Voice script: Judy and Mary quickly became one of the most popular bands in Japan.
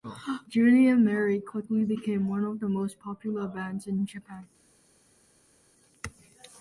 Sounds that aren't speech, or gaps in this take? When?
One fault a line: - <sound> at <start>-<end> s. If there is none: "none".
none